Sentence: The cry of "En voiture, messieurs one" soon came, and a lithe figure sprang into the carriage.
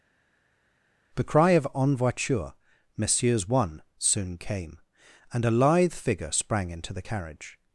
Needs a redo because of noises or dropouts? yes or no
no